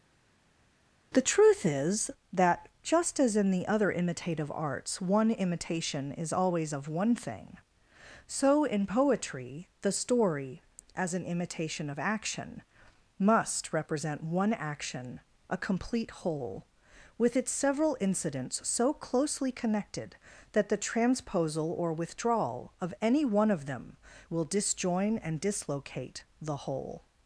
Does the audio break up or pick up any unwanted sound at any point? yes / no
no